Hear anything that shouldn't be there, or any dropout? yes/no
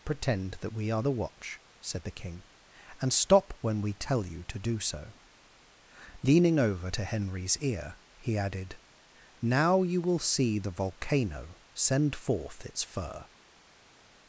no